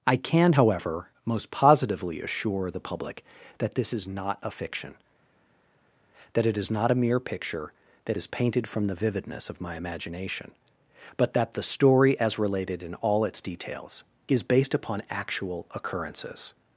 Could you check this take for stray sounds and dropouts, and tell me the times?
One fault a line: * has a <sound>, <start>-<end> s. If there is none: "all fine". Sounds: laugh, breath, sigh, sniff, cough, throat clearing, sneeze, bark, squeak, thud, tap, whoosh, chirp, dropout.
all fine